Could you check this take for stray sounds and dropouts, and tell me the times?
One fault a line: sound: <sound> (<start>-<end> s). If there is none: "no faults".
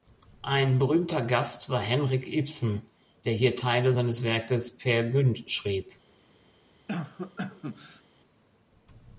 sound: cough (6.9-8.0 s)